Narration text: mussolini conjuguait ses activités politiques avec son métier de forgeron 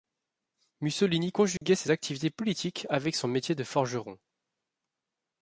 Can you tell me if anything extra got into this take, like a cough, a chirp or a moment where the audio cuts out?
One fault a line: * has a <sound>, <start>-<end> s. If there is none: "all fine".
* has a dropout, 1.6-1.6 s